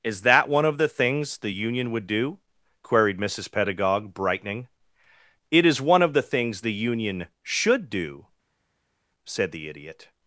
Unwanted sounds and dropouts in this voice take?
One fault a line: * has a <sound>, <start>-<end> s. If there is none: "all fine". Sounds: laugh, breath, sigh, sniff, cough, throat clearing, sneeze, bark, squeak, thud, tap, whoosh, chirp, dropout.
all fine